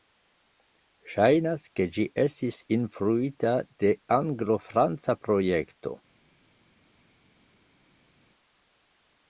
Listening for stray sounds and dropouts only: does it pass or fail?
pass